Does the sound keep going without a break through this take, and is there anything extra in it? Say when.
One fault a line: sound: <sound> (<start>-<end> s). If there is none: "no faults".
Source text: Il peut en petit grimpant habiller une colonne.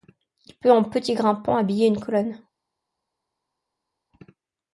no faults